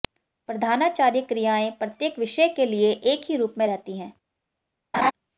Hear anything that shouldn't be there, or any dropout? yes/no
yes